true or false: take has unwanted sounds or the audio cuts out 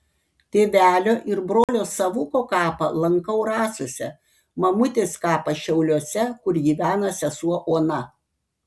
true